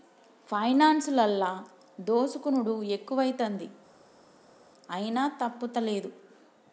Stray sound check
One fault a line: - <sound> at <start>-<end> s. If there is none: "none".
none